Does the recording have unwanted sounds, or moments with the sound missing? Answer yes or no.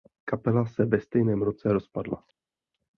no